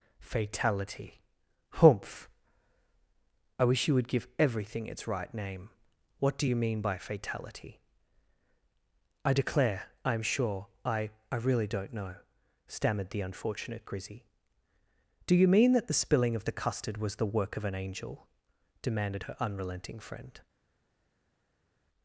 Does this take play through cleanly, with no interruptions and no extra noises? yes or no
yes